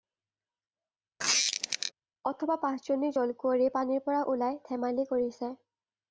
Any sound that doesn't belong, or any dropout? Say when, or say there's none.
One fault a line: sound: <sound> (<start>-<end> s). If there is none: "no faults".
sound: squeak (1.2-1.9 s)